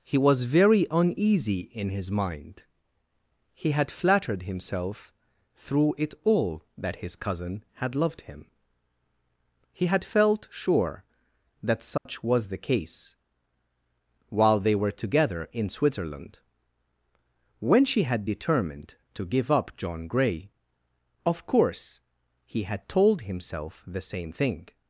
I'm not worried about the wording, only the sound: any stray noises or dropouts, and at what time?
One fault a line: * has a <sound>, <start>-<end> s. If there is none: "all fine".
* has a dropout, 12.0-12.1 s